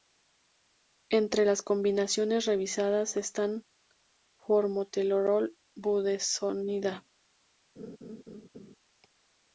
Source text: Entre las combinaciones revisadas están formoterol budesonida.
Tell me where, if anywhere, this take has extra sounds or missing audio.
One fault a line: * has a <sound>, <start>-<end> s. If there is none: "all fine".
* has a laugh, 7.8-8.8 s